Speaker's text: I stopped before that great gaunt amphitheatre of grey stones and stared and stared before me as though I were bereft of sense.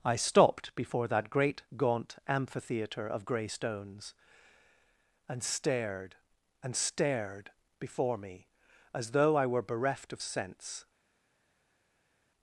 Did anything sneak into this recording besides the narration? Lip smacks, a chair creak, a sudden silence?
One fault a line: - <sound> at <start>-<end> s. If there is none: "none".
none